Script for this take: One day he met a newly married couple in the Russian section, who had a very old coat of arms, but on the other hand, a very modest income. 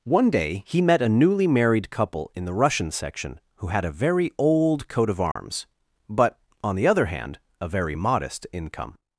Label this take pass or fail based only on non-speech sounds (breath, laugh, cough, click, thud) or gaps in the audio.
fail